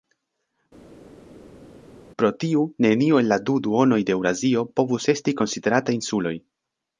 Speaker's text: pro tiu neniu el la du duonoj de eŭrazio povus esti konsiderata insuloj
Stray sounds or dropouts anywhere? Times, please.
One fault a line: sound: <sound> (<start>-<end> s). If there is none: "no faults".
no faults